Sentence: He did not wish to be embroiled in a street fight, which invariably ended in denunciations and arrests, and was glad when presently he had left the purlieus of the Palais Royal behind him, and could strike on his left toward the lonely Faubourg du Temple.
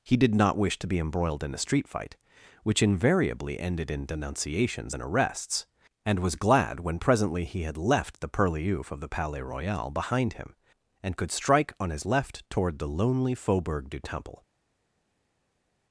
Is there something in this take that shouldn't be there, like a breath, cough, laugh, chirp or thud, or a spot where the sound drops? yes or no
no